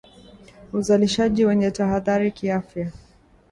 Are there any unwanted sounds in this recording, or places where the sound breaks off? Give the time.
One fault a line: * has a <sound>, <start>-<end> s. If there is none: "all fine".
all fine